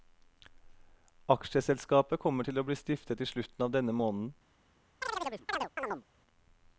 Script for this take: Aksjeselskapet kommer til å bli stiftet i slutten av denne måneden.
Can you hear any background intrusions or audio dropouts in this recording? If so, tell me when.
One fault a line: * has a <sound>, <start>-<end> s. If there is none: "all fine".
* has a chirp, 5.0-6.0 s